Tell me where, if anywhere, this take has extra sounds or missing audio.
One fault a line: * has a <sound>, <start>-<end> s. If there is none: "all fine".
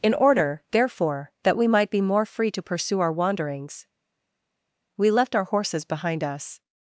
all fine